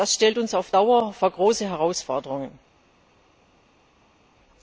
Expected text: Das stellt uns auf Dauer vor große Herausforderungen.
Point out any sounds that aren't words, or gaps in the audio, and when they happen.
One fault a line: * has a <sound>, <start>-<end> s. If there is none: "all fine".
all fine